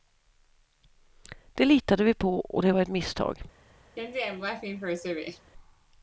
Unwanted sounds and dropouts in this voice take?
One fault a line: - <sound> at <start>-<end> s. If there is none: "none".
- laugh at 4.0-5.5 s